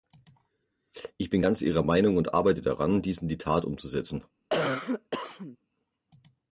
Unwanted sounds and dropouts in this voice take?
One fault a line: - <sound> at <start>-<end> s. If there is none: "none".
- cough at 4.5-5.6 s